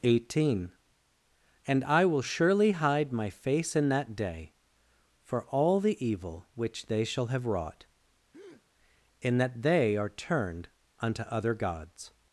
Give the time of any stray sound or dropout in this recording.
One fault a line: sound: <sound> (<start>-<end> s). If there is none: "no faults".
sound: breath (8.3-8.7 s)